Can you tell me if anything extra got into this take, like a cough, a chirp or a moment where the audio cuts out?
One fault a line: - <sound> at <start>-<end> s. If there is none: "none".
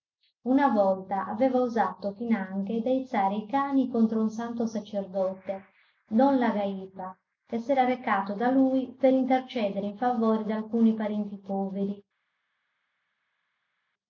none